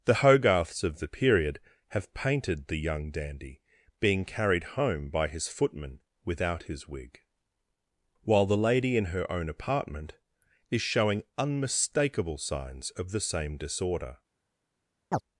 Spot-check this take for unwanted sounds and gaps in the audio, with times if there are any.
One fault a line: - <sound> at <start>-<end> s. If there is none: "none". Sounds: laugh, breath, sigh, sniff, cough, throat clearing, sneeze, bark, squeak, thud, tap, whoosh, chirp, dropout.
- chirp at 15.1-15.2 s